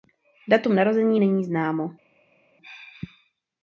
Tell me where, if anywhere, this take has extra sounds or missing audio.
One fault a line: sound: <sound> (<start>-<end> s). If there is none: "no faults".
no faults